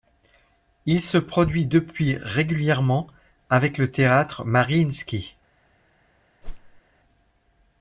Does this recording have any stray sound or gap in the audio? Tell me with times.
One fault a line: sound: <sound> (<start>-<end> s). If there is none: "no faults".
sound: whoosh (6.4-6.8 s)